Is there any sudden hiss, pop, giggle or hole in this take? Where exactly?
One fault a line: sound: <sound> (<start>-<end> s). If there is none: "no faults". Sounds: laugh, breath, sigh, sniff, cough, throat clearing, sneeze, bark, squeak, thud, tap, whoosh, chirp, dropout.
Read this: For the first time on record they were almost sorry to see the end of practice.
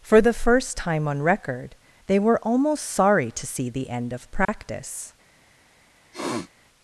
sound: dropout (4.5-4.5 s)
sound: sniff (6.1-6.5 s)